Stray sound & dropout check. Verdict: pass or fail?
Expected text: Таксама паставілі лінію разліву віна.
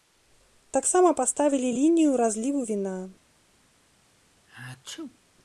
fail